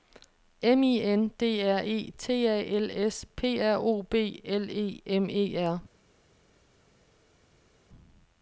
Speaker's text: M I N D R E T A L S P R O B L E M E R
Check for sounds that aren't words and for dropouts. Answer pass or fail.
pass